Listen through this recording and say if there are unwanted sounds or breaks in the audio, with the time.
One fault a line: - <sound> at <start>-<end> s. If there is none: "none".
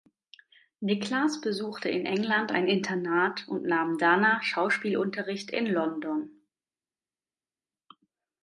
none